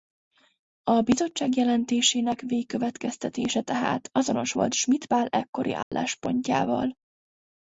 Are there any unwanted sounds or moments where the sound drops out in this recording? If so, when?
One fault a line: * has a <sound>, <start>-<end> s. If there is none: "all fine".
* has a dropout, 5.8-5.9 s